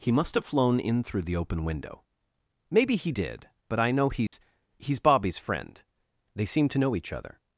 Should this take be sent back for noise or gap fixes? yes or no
yes